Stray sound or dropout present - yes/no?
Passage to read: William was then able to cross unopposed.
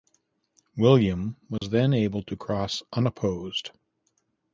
yes